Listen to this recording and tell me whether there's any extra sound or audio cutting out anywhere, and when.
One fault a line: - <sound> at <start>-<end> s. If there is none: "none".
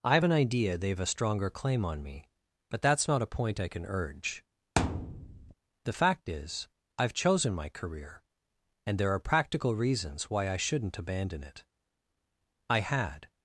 - thud at 4.8-5.5 s